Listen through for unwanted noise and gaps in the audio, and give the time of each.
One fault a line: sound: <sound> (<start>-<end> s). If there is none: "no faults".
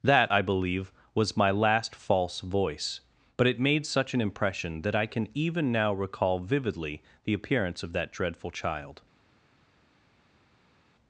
no faults